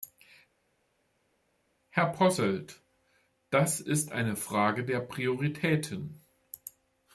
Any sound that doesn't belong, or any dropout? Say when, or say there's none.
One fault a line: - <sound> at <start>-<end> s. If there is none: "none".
none